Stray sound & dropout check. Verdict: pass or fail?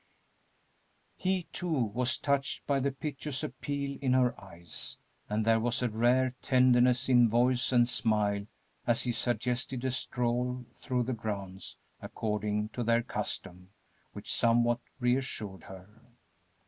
pass